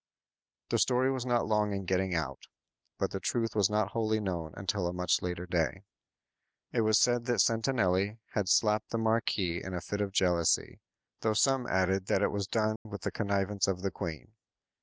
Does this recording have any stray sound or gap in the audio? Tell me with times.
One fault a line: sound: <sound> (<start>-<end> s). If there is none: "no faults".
sound: dropout (12.8-12.9 s)